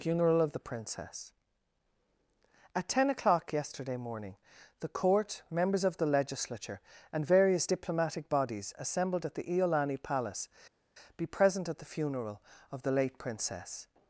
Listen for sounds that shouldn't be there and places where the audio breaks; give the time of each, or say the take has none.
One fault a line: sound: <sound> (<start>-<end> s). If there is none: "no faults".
no faults